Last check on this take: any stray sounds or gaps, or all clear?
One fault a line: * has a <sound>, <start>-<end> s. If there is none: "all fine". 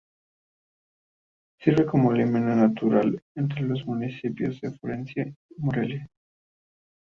all fine